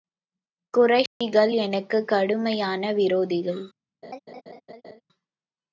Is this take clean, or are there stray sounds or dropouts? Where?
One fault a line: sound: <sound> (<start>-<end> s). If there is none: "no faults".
sound: dropout (1.1-1.2 s)
sound: laugh (4.0-5.0 s)